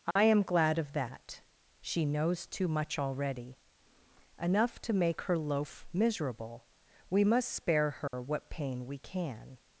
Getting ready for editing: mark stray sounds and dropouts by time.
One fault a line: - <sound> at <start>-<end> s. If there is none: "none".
- dropout at 0.1-0.2 s
- dropout at 8.1-8.1 s